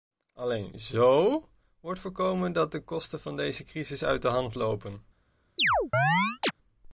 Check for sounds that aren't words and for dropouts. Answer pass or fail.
fail